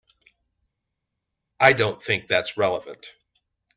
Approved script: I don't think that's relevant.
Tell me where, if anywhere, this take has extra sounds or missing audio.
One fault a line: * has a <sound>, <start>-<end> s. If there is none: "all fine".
all fine